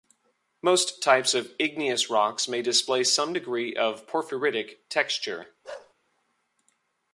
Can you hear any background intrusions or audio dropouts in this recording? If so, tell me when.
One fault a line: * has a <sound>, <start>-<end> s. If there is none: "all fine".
* has a bark, 5.6-5.9 s